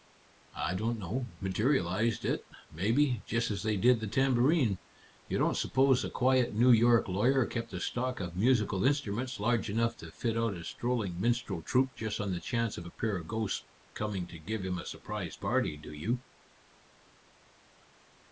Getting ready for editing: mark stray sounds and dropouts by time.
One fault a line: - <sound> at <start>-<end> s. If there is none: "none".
none